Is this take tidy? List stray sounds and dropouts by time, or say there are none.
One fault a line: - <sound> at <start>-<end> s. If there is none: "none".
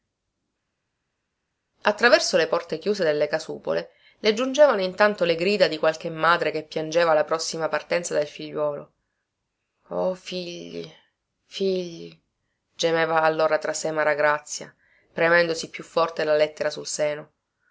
none